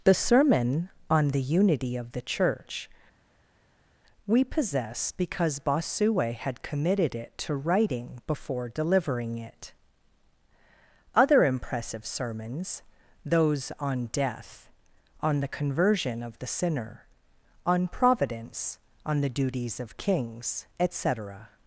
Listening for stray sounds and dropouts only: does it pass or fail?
pass